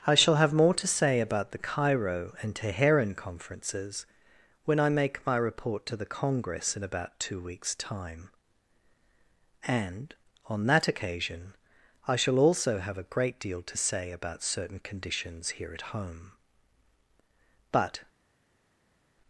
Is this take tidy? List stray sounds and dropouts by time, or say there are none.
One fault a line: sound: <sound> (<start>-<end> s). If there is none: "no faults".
no faults